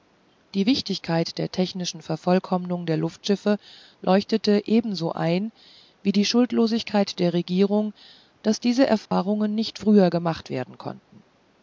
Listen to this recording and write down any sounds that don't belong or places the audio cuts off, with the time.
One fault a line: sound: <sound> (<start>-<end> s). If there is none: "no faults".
sound: dropout (9.1-9.1 s)